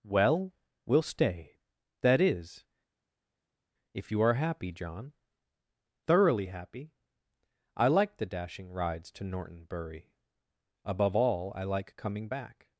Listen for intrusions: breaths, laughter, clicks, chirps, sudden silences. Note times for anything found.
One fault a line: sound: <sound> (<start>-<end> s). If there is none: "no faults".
no faults